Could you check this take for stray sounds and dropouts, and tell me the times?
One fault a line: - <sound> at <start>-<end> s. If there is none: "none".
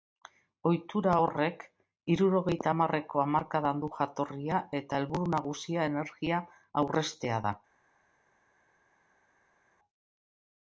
none